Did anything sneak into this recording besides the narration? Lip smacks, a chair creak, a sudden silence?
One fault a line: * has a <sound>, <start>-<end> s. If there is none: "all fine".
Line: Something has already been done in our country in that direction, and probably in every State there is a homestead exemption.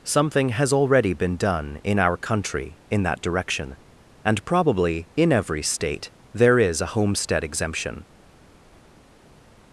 all fine